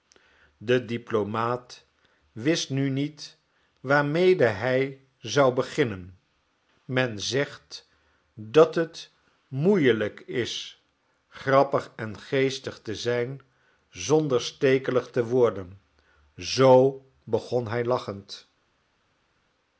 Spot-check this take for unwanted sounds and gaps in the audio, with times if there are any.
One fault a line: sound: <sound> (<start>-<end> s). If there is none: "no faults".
no faults